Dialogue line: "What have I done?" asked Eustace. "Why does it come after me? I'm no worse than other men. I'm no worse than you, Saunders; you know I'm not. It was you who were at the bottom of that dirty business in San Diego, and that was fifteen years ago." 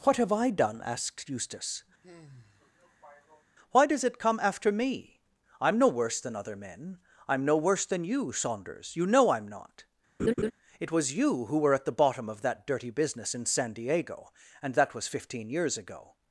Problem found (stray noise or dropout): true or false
true